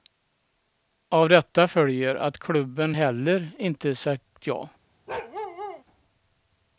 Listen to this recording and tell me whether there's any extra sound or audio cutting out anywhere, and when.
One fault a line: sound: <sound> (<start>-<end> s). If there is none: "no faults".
sound: bark (5.1-5.8 s)